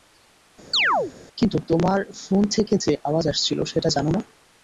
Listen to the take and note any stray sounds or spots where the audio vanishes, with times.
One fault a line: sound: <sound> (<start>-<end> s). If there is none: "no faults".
sound: chirp (0.7-1.1 s)